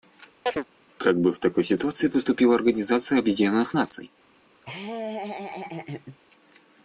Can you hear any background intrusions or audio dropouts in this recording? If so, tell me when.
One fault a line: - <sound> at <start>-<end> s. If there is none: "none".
- chirp at 0.5-0.6 s
- laugh at 4.6-6.2 s